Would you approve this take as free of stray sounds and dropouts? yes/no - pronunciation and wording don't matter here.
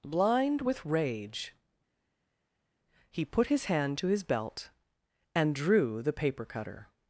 yes